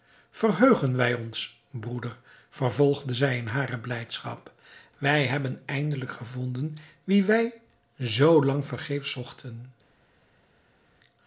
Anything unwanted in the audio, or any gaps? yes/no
no